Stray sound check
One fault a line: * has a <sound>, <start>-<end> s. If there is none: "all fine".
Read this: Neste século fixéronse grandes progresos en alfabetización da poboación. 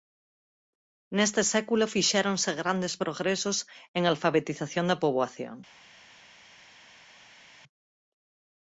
all fine